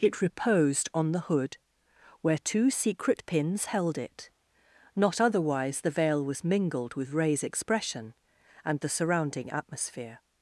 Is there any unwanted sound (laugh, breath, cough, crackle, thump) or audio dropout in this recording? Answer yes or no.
no